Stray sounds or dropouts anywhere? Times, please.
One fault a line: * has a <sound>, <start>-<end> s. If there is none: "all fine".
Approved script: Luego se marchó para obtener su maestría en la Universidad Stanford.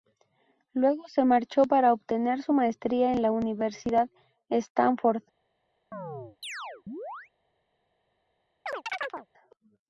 * has a chirp, 5.9-7.3 s
* has a chirp, 8.7-9.3 s